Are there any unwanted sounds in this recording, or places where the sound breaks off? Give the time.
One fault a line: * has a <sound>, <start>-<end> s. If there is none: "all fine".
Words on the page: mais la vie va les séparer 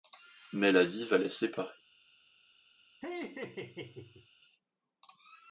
* has a laugh, 3.0-4.3 s